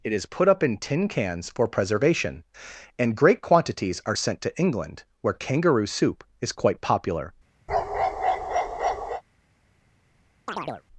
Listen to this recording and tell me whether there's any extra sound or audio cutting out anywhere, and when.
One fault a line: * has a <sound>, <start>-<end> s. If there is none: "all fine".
* has a bark, 7.7-9.2 s
* has a chirp, 10.5-10.8 s